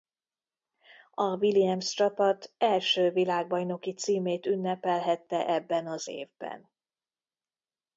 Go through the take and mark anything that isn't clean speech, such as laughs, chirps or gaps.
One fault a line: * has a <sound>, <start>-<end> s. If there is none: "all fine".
all fine